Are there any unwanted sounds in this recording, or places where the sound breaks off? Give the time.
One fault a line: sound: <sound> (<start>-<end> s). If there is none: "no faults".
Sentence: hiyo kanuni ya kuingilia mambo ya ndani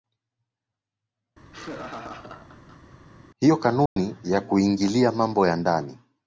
sound: laugh (1.4-3.0 s)
sound: dropout (3.9-4.0 s)